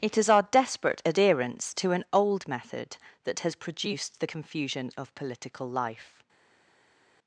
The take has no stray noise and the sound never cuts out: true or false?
true